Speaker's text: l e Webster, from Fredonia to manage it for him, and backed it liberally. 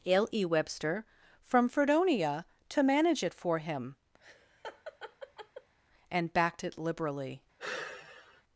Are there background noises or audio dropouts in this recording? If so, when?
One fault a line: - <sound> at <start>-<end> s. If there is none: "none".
- laugh at 4.2-5.7 s
- sigh at 7.6-8.4 s